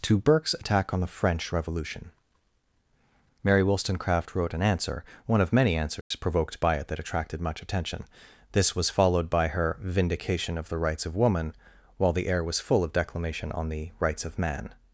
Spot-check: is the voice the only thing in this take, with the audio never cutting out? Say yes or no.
no